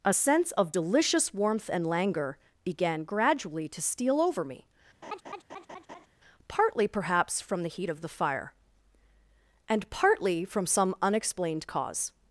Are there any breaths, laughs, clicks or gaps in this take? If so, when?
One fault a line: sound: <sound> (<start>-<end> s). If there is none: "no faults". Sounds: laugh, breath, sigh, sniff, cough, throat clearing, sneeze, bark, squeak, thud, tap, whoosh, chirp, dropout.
sound: laugh (5.0-6.1 s)